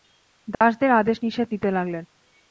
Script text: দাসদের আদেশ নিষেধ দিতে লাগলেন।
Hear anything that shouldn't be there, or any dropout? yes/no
yes